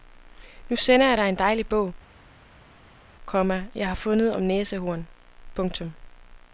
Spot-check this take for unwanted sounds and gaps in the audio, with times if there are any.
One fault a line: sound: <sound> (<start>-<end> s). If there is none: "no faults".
no faults